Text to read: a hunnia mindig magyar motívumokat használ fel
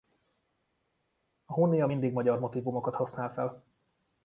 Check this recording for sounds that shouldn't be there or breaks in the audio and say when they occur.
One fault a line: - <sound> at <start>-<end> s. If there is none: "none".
none